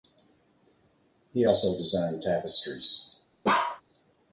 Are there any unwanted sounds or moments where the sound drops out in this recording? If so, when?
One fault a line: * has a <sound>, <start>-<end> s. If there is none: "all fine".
* has a bark, 3.4-3.8 s